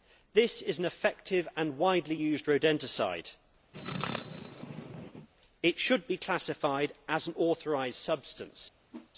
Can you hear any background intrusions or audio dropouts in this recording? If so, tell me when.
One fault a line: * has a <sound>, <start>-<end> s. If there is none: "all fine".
* has a sneeze, 3.7-5.3 s
* has a whoosh, 8.9-9.1 s